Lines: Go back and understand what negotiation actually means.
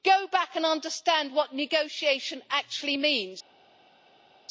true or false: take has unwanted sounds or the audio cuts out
false